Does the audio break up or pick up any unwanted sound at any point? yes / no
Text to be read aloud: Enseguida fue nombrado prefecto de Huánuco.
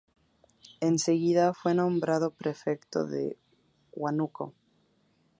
no